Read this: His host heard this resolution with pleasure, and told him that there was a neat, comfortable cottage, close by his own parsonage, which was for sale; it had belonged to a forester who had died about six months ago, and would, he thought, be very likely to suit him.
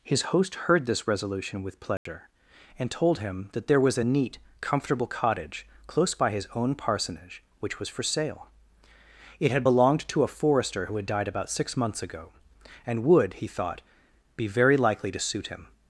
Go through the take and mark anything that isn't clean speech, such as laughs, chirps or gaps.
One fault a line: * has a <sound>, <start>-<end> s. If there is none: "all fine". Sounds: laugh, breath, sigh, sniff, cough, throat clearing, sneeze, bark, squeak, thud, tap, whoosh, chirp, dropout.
* has a dropout, 2.0-2.1 s